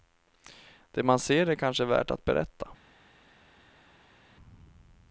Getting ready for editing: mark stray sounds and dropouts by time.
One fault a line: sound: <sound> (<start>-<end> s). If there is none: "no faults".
no faults